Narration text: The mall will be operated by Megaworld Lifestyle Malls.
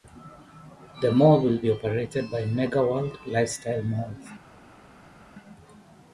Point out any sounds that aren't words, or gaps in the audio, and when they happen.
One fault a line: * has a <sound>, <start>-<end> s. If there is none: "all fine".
all fine